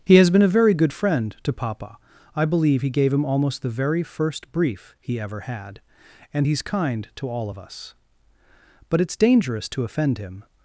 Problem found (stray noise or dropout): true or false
false